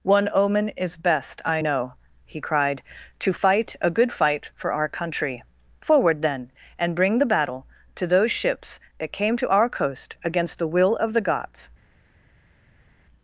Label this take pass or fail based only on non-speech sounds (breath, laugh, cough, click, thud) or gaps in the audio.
pass